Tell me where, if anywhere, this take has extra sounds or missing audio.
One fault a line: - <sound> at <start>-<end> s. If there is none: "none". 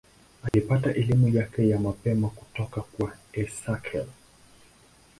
- dropout at 0.5-0.5 s